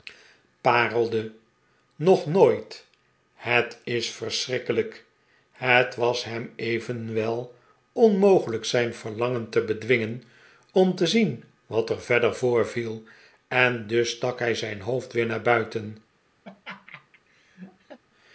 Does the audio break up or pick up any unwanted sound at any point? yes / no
yes